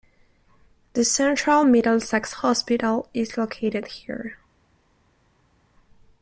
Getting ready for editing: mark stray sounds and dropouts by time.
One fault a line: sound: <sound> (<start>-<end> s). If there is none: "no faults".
no faults